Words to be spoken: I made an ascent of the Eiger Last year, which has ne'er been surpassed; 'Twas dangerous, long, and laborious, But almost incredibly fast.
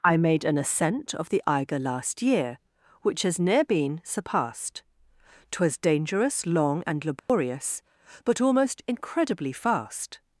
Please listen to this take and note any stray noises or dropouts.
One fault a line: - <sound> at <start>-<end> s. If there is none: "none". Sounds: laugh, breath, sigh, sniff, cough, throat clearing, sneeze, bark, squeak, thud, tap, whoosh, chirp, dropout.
- dropout at 7.2-7.3 s